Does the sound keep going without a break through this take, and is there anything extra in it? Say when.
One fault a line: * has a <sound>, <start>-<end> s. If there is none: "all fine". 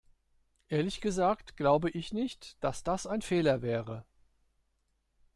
all fine